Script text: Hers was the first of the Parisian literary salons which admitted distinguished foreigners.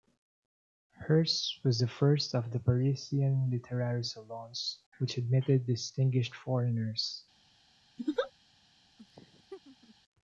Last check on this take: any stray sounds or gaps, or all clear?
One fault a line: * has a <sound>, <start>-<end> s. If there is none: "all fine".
* has a laugh, 8.0-8.3 s
* has a laugh, 9.0-10.0 s